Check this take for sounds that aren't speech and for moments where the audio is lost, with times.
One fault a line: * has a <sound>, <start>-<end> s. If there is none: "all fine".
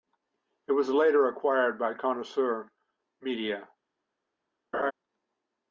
* has a laugh, 4.7-4.9 s